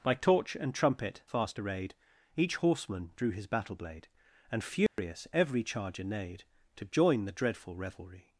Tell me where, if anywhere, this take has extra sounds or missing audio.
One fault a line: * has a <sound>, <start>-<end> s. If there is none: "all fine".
* has a dropout, 4.9-5.0 s